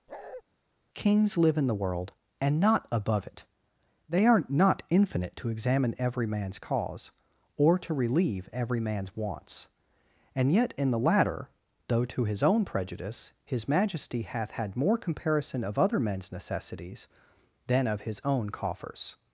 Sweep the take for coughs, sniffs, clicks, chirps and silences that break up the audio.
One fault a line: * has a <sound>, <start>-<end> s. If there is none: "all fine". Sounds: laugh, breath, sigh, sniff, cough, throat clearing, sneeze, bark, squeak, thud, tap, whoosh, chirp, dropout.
* has a bark, 0.1-0.4 s